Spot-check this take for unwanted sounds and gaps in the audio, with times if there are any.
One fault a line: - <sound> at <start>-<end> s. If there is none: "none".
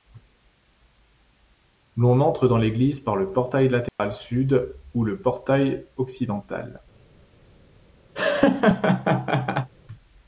- dropout at 3.9-4.0 s
- laugh at 8.1-9.7 s